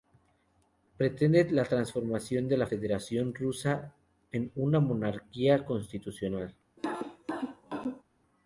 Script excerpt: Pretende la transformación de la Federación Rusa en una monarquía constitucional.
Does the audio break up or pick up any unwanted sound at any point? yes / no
yes